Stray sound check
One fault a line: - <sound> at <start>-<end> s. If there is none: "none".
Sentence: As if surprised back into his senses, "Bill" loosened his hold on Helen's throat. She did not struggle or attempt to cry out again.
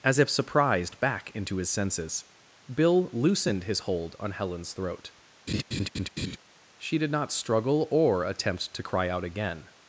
- laugh at 5.5-6.4 s